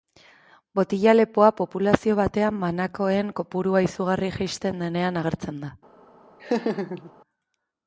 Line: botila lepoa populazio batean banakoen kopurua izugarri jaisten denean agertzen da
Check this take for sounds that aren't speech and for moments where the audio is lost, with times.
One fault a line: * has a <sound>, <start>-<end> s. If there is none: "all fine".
* has a laugh, 6.4-7.1 s